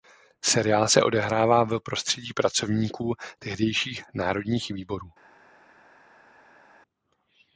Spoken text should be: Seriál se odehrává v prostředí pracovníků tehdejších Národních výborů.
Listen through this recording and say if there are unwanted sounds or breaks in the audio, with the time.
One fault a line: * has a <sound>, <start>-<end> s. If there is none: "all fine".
all fine